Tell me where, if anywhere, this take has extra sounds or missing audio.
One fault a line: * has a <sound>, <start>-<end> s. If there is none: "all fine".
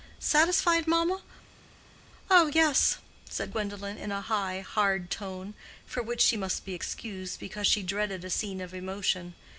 all fine